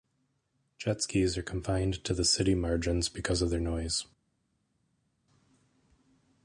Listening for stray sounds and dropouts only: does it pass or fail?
pass